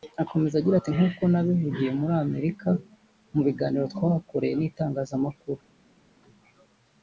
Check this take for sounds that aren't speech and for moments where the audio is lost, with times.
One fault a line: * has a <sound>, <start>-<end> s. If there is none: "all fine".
all fine